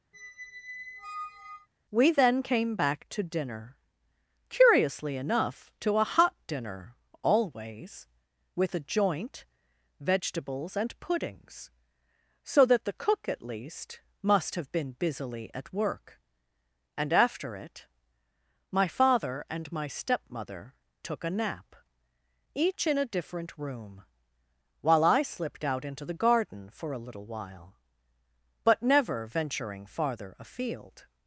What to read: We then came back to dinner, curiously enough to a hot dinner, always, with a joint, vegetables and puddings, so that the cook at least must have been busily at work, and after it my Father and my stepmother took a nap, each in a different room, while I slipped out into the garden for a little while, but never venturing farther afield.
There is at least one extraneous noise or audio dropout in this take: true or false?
true